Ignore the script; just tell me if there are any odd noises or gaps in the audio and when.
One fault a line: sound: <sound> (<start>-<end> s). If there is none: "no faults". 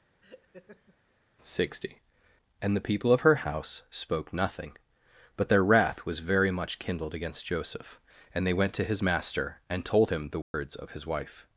sound: laugh (0.2-1.0 s)
sound: dropout (10.4-10.5 s)